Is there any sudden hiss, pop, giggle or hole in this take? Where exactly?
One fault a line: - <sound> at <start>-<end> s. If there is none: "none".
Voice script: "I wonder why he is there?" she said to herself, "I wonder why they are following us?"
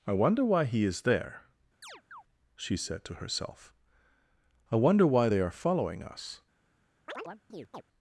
- chirp at 1.8-2.2 s
- chirp at 7.1-7.8 s